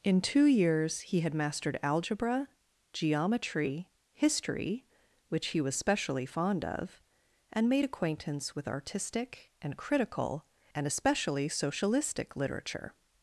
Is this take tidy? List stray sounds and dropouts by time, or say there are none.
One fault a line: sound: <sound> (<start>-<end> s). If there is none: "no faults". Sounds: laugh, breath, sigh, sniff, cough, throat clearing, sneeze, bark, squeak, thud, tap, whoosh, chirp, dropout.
no faults